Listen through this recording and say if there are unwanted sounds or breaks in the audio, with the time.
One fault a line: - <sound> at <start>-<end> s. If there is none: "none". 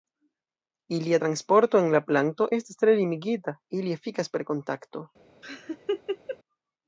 - laugh at 5.4-6.4 s